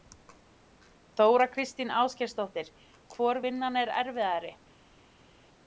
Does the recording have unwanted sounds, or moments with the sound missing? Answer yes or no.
no